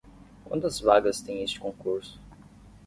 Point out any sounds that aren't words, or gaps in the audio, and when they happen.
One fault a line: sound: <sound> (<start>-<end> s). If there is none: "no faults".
no faults